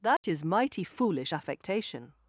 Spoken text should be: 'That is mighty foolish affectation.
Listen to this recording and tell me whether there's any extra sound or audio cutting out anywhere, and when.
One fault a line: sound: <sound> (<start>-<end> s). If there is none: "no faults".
sound: dropout (0.2-0.2 s)